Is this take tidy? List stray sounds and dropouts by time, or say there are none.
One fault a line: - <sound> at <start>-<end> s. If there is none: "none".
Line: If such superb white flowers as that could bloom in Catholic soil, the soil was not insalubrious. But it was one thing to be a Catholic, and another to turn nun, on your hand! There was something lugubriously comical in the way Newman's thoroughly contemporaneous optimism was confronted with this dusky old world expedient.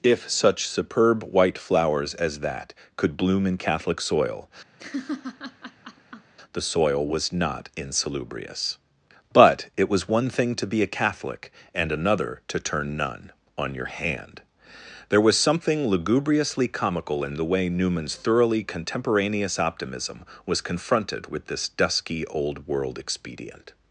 - laugh at 4.8-6.3 s